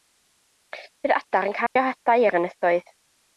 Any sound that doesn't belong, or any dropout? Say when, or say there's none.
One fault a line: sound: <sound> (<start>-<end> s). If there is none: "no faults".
sound: dropout (1.7-1.8 s)